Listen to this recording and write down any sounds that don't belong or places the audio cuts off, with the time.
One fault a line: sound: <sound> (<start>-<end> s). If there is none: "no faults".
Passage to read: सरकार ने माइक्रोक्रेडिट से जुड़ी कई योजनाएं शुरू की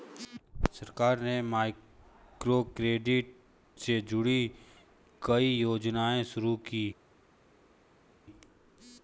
no faults